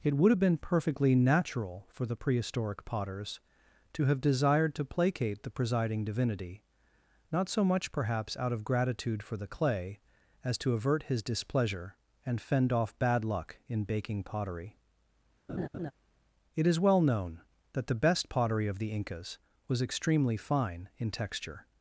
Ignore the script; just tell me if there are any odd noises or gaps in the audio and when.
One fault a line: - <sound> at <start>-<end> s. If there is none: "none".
- laugh at 15.5-15.9 s